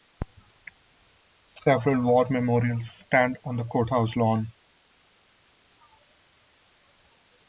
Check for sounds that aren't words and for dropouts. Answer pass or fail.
pass